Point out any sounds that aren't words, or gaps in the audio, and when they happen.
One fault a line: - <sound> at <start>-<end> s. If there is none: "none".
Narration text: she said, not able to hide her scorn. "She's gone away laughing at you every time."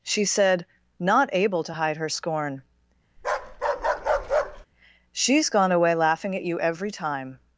- bark at 3.2-4.7 s